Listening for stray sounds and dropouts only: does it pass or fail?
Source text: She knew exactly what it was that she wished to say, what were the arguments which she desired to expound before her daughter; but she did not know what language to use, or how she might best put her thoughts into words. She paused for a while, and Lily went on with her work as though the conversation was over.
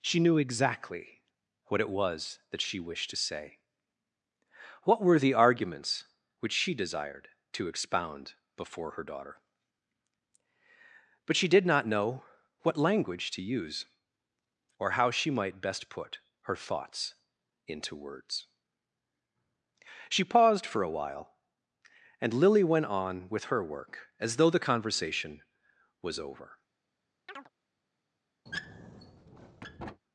fail